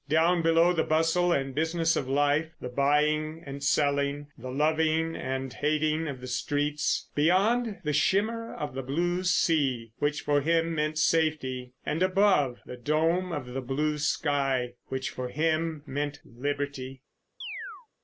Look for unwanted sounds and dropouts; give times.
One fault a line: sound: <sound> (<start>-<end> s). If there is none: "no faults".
sound: chirp (17.4-17.9 s)